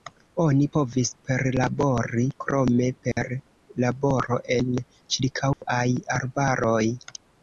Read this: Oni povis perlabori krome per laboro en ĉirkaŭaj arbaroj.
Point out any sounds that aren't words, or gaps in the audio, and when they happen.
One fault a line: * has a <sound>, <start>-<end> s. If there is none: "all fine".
* has a dropout, 3.1-3.2 s
* has a dropout, 5.5-5.6 s